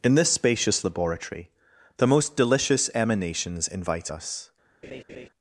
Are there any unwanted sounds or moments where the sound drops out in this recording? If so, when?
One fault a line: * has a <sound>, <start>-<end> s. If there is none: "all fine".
* has a laugh, 4.8-5.3 s